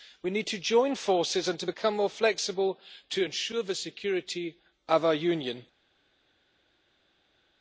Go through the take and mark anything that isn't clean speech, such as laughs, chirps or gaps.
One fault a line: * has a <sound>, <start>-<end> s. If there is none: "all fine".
all fine